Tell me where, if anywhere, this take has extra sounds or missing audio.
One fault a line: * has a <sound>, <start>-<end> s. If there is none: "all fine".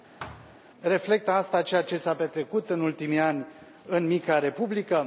* has a thud, 0.2-0.6 s